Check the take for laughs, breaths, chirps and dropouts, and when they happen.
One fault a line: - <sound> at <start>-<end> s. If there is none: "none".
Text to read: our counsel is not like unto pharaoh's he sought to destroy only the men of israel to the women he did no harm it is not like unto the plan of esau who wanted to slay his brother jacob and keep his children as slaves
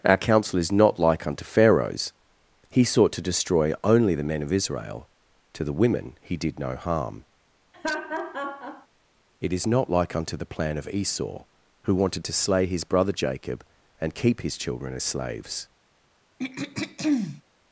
- laugh at 7.7-8.9 s
- throat clearing at 16.4-17.4 s